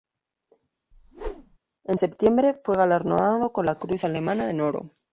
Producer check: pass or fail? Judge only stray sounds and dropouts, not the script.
fail